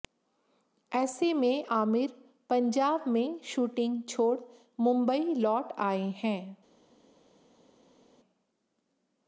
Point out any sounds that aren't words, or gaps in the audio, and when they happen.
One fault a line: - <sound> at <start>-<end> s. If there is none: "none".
none